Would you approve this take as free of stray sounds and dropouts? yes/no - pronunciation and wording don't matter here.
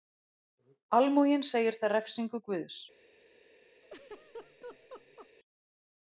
no